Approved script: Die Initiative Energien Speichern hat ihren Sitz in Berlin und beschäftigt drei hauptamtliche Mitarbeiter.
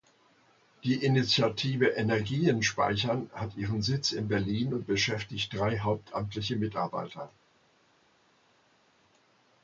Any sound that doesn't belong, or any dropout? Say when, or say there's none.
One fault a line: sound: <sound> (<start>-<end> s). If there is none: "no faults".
no faults